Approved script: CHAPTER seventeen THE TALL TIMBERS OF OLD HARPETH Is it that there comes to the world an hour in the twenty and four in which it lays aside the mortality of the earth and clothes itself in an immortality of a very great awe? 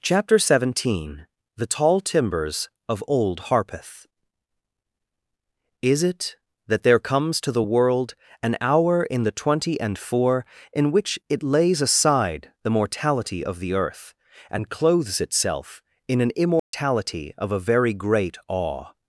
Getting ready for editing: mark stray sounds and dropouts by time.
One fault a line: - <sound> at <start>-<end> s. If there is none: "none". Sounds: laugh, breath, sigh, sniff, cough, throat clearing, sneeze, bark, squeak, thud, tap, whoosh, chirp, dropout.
- dropout at 16.6-16.7 s